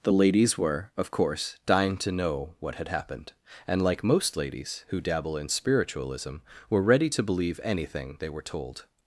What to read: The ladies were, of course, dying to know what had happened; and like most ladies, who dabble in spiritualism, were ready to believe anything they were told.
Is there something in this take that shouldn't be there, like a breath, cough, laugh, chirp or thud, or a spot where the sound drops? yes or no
no